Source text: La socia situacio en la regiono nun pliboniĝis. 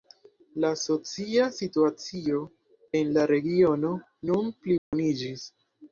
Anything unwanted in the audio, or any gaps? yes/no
yes